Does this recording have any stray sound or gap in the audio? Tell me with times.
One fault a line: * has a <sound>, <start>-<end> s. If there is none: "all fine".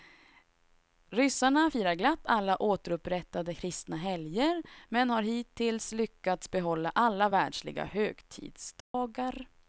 * has a dropout, 8.8-8.9 s